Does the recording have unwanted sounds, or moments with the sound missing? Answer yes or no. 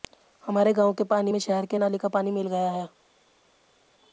no